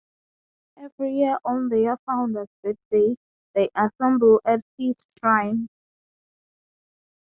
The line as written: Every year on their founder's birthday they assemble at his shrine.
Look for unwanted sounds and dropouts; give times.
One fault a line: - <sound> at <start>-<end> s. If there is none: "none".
none